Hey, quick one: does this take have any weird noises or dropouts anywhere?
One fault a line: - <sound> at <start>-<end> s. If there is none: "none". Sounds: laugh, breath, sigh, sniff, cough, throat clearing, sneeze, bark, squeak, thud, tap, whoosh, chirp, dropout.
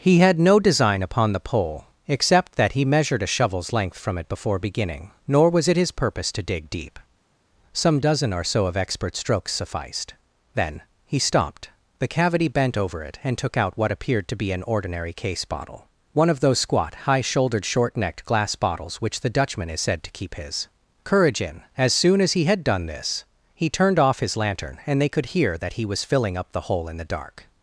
none